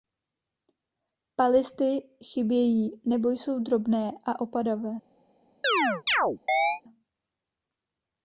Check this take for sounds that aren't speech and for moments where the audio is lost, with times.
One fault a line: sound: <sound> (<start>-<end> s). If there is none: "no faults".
sound: chirp (5.6-6.8 s)